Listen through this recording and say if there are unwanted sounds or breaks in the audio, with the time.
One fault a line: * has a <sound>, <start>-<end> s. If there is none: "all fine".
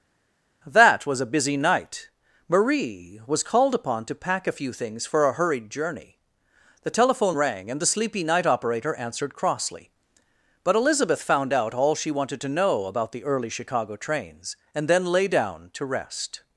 all fine